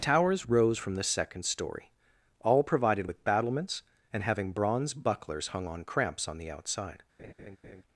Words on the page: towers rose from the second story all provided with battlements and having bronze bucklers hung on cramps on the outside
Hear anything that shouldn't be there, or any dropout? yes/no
yes